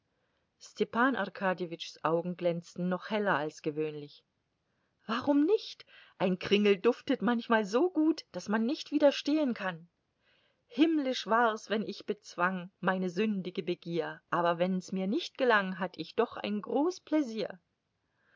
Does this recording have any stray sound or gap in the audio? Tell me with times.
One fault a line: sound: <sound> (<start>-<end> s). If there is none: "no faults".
no faults